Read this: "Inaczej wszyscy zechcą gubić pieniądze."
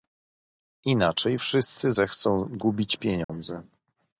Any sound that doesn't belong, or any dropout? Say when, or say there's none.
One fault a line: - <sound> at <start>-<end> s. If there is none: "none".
- dropout at 3.2-3.3 s